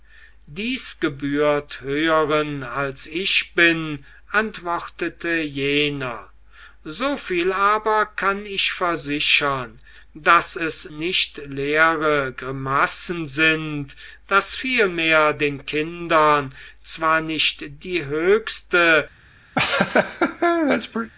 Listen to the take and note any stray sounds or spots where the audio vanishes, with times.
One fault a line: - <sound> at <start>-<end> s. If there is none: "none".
- laugh at 19.6-21.1 s